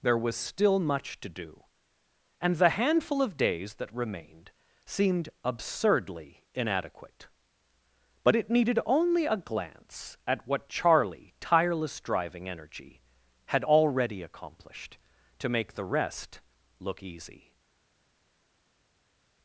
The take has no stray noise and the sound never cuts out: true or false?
true